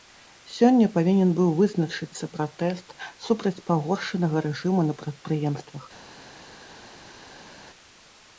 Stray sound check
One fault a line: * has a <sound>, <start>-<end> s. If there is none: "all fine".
all fine